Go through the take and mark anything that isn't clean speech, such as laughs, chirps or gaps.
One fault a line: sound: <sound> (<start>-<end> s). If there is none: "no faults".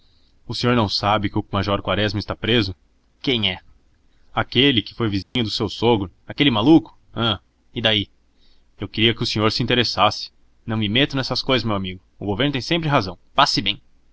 sound: dropout (5.2-5.4 s)